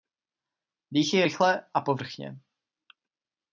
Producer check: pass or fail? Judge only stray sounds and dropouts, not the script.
pass